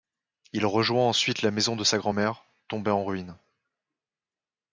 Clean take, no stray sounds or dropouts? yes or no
yes